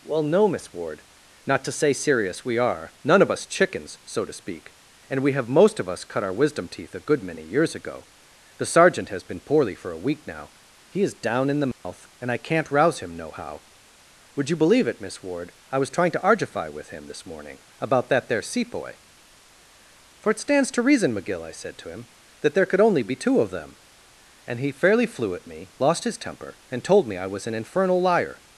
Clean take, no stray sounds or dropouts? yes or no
no